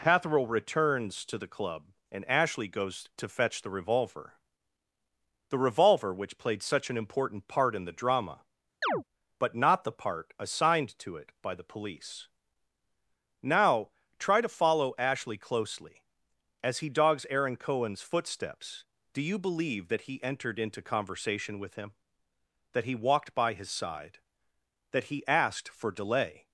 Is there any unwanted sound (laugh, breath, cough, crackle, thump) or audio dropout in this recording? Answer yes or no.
yes